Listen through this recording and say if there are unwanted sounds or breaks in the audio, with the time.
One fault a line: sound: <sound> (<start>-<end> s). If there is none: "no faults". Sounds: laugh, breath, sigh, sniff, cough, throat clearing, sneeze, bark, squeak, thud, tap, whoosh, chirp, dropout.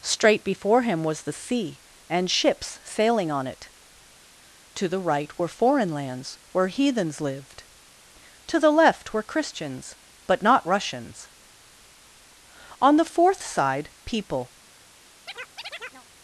sound: chirp (15.3-16.1 s)